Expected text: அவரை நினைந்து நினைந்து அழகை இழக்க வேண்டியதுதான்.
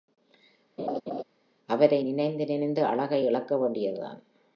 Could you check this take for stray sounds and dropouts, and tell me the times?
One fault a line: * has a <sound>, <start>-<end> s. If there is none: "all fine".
* has a laugh, 0.8-1.2 s